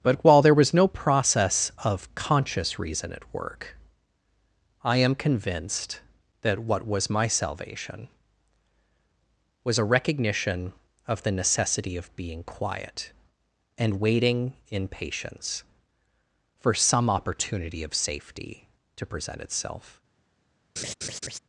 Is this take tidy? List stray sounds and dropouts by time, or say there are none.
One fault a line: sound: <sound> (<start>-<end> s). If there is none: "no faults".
sound: laugh (20.8-21.4 s)